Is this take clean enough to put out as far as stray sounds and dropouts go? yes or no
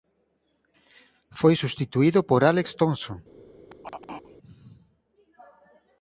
no